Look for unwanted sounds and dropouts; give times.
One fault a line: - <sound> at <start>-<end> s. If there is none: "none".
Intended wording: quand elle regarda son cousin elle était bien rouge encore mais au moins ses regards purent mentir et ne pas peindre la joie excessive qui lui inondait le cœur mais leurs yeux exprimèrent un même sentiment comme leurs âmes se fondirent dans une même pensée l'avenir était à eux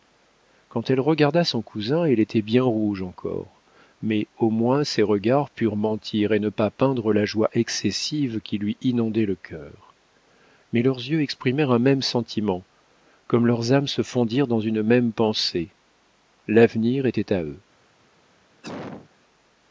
- cough at 18.6-19.1 s